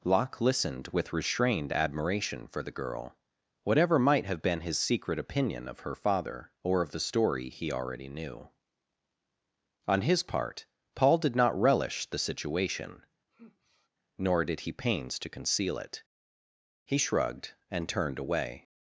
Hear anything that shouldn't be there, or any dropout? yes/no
yes